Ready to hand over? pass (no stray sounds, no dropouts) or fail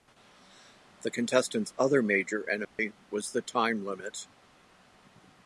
fail